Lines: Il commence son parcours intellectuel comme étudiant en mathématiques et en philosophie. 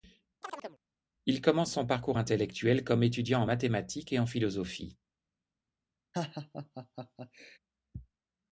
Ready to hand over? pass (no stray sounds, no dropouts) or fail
fail